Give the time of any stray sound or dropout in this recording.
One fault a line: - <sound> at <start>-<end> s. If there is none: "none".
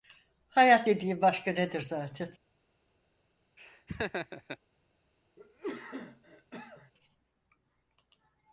- laugh at 3.6-4.6 s
- cough at 5.4-6.9 s